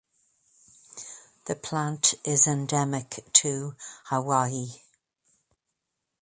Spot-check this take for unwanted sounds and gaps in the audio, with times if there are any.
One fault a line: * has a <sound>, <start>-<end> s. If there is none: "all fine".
all fine